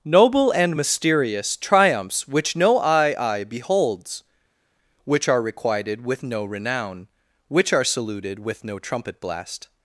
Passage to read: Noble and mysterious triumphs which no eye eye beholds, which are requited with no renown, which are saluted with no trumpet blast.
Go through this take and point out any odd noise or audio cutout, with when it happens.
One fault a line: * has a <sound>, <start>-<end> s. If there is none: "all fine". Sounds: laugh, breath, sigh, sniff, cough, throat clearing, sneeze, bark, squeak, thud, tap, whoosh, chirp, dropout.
all fine